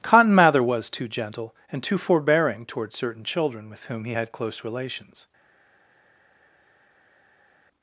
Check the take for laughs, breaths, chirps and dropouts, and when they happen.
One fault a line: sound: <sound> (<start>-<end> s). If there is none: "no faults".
no faults